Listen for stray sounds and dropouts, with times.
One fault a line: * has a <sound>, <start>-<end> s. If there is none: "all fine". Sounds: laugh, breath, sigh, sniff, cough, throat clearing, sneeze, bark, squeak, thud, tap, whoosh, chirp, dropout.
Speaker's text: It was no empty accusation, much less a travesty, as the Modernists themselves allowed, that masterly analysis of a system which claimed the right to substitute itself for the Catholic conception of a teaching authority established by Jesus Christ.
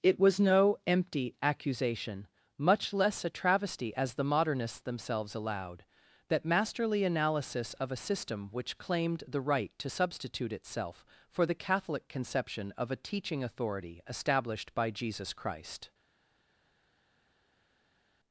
all fine